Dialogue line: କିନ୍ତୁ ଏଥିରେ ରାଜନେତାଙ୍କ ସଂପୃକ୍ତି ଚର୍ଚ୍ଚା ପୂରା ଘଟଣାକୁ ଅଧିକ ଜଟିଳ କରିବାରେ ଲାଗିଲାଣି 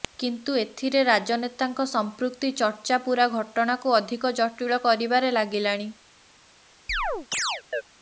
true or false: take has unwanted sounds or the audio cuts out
true